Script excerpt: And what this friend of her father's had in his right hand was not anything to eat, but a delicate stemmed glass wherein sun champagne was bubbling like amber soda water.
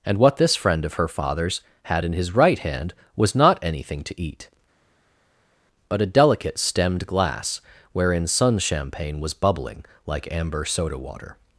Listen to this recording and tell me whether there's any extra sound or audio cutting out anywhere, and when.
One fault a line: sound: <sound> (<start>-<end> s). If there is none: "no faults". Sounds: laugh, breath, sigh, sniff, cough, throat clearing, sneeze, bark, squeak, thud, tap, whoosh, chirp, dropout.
no faults